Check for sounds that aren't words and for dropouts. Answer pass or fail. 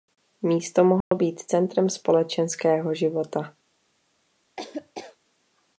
fail